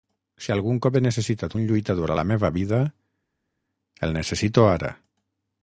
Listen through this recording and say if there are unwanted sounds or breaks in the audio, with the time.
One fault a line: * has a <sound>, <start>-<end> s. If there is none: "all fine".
all fine